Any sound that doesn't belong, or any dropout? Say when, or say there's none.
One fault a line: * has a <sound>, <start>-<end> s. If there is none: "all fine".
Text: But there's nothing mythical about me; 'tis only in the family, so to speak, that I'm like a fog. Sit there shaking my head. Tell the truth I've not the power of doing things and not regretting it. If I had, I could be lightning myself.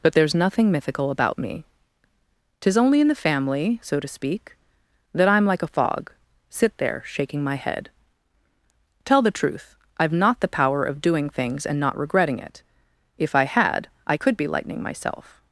all fine